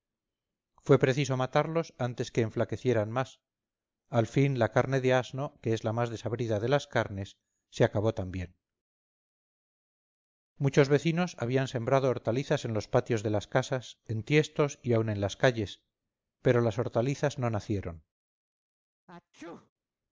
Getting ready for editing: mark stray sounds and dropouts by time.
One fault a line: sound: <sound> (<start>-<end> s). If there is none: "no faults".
sound: sneeze (19.1-19.7 s)